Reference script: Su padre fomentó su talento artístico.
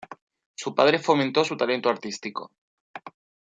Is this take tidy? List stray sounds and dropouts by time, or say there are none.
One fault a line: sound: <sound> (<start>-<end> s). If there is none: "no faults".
no faults